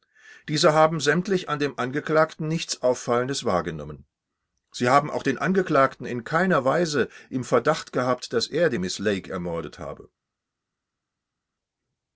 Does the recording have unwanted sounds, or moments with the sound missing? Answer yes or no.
no